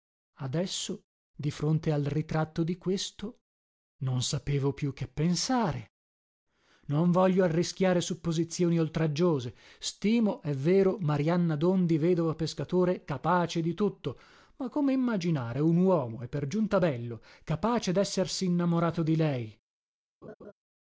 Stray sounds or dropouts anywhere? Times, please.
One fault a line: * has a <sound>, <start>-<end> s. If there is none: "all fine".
* has a laugh, 20.2-20.5 s